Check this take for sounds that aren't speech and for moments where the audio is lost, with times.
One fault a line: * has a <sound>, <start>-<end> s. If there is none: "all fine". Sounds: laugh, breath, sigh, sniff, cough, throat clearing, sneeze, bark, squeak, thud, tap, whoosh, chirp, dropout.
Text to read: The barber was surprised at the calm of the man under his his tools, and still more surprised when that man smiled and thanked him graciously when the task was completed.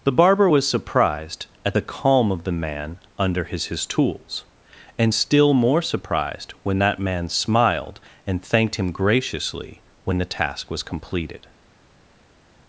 all fine